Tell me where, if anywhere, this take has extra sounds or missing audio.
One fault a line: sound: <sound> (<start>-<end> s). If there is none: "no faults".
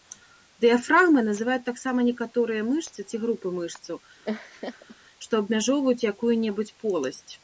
sound: laugh (4.2-5.0 s)